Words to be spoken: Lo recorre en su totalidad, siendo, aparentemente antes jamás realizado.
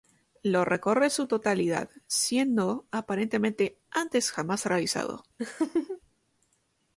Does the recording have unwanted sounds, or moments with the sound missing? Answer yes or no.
yes